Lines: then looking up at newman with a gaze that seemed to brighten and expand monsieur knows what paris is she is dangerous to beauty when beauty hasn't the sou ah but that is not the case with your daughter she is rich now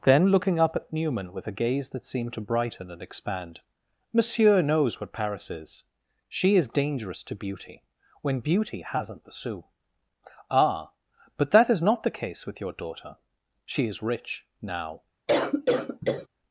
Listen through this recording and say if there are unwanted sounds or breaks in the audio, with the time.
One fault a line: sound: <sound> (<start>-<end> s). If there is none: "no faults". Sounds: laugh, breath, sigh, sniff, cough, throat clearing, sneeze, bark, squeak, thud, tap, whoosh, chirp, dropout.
sound: cough (15.3-16.3 s)